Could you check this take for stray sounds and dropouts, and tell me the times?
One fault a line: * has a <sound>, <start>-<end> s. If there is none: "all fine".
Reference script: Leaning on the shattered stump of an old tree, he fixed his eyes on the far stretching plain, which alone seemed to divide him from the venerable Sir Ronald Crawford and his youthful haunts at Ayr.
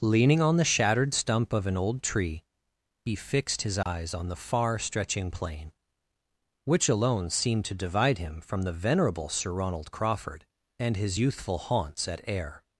* has a dropout, 3.8-3.9 s